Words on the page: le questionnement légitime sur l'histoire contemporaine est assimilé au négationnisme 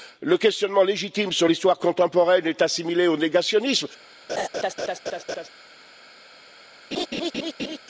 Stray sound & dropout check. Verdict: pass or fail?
fail